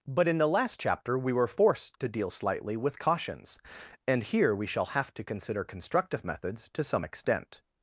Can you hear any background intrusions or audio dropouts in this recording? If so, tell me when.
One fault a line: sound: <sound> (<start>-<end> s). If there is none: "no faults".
no faults